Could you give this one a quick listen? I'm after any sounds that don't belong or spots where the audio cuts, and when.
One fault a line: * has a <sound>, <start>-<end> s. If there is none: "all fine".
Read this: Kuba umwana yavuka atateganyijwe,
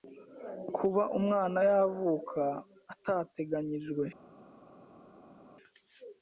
all fine